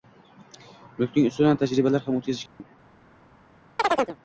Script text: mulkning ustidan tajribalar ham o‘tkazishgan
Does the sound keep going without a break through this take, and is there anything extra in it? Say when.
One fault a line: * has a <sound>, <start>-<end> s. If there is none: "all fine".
* has a dropout, 2.5-2.6 s
* has a chirp, 3.8-4.2 s